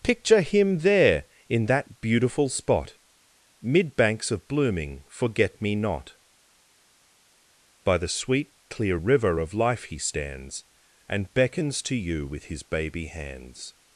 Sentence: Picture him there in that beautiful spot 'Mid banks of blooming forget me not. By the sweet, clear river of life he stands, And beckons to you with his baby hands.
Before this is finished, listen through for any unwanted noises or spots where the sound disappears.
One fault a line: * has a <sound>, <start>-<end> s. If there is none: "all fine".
all fine